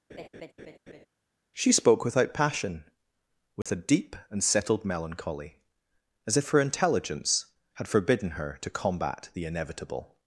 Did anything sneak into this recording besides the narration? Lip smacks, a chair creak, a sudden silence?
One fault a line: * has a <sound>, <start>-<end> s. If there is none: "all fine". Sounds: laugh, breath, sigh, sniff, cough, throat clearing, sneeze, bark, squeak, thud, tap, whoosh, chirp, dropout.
* has a laugh, 0.1-1.1 s
* has a dropout, 3.6-3.7 s